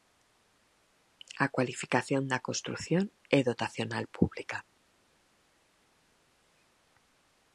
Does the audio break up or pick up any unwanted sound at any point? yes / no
no